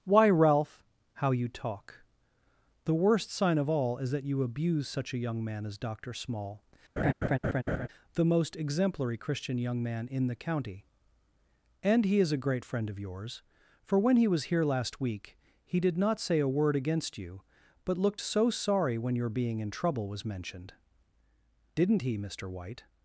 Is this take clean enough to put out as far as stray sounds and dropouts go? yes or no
no